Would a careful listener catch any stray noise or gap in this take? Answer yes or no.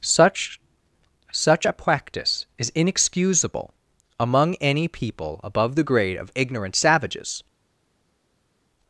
no